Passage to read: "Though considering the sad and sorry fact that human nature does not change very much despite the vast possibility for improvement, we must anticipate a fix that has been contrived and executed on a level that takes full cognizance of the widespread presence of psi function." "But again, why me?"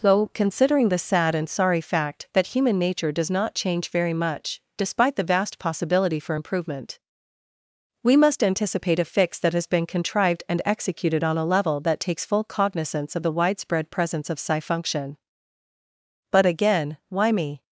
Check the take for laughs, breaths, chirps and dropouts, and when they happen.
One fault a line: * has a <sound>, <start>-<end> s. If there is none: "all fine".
all fine